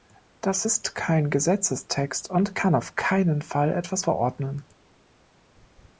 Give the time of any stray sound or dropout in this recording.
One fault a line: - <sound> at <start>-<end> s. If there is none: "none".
none